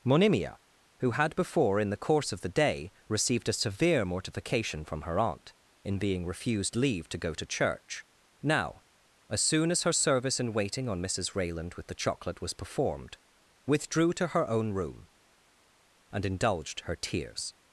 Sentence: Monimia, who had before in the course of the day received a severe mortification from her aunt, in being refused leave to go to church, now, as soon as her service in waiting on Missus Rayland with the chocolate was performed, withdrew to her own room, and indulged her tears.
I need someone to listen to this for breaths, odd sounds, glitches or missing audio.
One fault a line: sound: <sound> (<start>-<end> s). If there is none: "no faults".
no faults